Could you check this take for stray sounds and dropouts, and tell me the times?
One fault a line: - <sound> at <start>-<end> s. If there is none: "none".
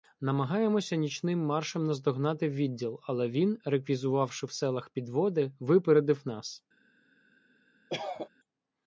- cough at 7.9-8.3 s